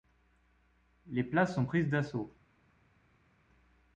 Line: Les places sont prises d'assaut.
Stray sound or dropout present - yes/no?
no